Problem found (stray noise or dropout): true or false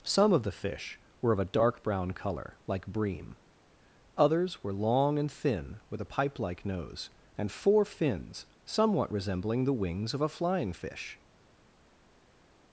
false